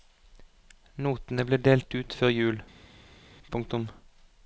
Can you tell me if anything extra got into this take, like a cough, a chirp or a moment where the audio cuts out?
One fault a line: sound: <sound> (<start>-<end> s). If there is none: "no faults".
no faults